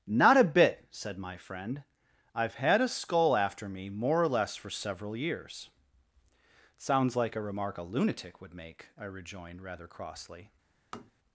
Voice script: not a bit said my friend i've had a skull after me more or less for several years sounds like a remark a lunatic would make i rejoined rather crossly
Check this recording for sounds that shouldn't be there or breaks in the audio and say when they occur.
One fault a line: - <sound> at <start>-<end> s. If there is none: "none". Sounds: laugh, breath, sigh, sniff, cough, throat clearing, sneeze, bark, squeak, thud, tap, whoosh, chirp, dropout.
- tap at 10.9-11.1 s